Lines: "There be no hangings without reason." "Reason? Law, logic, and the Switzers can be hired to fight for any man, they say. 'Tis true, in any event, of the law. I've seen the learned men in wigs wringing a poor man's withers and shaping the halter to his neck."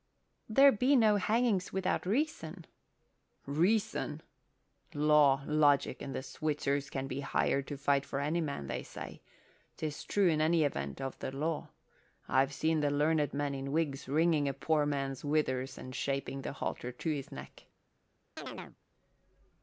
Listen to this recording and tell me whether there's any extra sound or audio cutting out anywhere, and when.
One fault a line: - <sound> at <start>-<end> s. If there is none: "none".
- chirp at 18.4-18.8 s